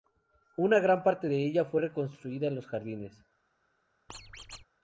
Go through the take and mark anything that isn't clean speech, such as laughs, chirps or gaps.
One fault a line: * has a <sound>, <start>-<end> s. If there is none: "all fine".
* has a squeak, 4.1-4.7 s